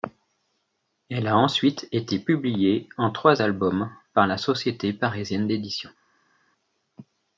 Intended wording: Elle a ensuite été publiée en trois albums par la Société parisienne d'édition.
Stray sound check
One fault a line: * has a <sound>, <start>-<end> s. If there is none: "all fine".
all fine